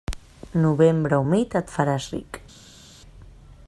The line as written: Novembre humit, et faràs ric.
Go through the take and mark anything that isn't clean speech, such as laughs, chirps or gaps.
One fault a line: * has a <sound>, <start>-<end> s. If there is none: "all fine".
all fine